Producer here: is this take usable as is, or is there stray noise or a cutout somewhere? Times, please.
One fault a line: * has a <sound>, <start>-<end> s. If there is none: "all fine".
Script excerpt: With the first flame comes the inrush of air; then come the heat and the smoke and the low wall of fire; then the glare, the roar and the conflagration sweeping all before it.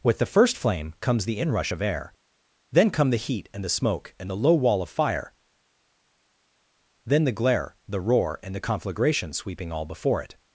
all fine